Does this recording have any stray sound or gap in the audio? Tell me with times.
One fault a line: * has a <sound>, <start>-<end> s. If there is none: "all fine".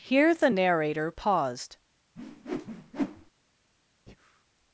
* has a whoosh, 2.2-3.3 s
* has a breath, 4.1-4.5 s